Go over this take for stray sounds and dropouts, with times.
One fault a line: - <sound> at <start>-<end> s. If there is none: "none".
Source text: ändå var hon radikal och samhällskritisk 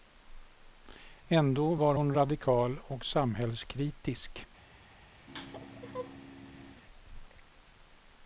- laugh at 5.3-6.8 s